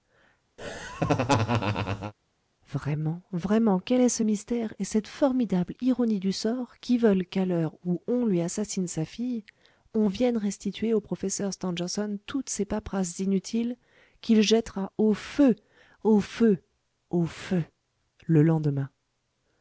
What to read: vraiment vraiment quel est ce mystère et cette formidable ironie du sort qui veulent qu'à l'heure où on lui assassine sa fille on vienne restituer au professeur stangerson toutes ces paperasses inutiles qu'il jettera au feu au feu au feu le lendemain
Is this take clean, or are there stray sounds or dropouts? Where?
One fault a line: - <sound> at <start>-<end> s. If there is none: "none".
- laugh at 0.6-2.1 s